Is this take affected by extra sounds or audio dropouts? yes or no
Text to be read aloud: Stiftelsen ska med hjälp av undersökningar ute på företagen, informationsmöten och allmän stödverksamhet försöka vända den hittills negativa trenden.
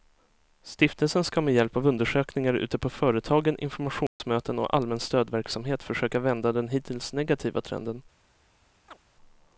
yes